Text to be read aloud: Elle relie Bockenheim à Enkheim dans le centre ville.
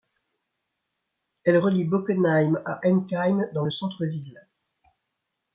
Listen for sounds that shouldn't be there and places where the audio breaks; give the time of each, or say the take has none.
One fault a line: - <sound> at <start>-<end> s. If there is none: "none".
none